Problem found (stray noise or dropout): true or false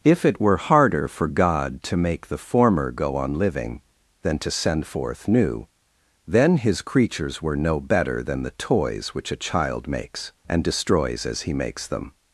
false